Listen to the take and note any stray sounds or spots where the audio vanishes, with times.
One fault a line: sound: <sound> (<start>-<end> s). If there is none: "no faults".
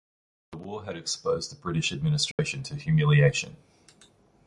sound: dropout (2.3-2.4 s)